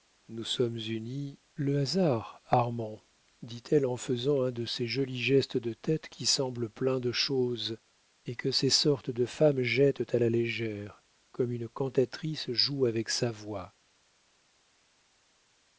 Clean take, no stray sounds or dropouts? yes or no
yes